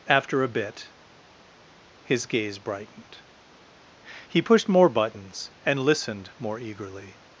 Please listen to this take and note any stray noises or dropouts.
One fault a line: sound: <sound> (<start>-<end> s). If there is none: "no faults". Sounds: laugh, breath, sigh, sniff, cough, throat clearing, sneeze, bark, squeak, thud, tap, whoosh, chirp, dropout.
no faults